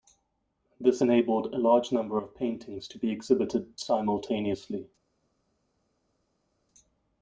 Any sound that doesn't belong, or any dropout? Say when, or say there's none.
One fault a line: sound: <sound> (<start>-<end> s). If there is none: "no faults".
no faults